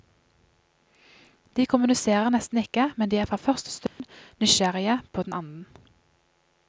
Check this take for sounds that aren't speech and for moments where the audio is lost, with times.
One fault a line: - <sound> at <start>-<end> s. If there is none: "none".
- dropout at 3.9-4.0 s